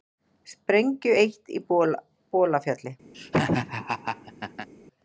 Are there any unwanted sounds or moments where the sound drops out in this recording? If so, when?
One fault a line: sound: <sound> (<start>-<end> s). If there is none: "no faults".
sound: laugh (3.1-4.7 s)